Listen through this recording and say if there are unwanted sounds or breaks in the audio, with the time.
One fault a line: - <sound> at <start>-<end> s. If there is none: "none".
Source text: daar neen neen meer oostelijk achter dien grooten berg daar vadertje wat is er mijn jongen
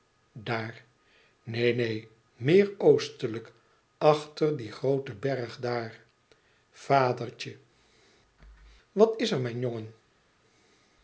none